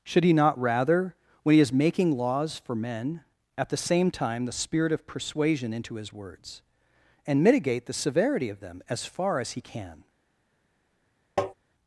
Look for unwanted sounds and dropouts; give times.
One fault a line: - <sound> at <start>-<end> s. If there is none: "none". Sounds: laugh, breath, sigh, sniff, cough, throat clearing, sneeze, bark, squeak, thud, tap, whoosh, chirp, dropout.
- tap at 11.4-11.5 s